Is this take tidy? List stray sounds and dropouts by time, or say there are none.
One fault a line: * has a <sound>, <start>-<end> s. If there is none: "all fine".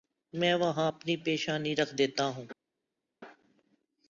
all fine